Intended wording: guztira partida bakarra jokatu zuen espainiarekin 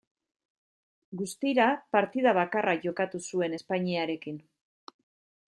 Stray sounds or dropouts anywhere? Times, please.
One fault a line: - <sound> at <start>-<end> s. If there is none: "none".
none